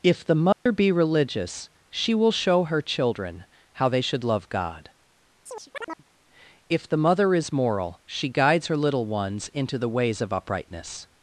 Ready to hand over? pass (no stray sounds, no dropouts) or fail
fail